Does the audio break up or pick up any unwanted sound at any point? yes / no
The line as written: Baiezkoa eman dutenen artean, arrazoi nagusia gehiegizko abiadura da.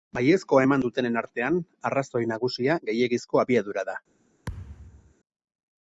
yes